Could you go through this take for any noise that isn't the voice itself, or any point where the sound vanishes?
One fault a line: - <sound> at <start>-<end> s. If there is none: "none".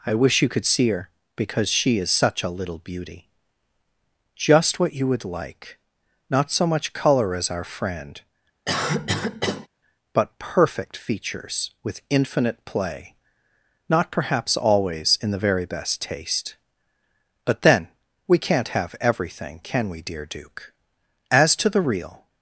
- cough at 8.7-9.7 s